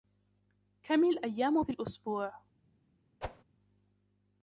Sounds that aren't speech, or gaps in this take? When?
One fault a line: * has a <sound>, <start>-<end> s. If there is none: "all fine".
* has a whoosh, 3.2-3.4 s